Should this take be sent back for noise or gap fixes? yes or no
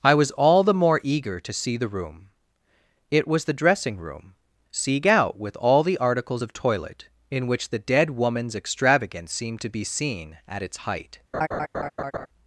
yes